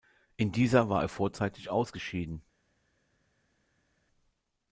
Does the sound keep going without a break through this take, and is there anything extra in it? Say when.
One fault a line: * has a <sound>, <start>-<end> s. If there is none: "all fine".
all fine